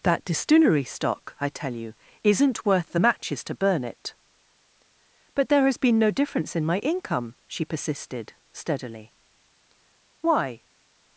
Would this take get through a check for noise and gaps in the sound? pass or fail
pass